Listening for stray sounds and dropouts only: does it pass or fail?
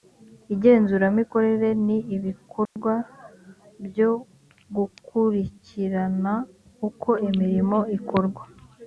fail